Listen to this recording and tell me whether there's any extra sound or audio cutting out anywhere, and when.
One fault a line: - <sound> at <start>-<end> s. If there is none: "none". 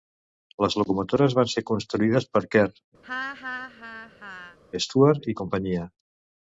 - laugh at 3.0-4.6 s